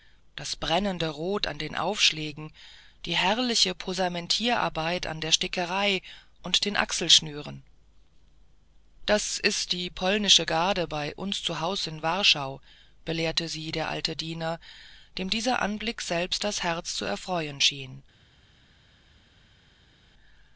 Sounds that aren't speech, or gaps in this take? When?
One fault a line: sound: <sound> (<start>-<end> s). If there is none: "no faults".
no faults